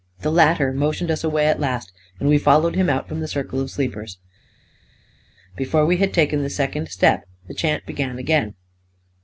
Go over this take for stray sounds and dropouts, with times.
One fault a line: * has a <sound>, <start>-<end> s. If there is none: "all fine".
all fine